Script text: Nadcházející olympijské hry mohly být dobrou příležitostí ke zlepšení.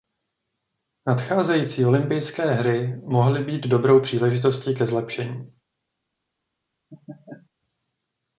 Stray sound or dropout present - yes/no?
yes